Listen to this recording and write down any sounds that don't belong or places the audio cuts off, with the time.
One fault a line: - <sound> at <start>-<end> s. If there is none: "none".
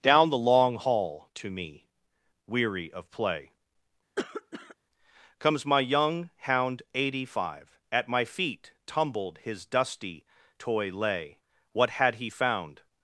- cough at 4.2-4.8 s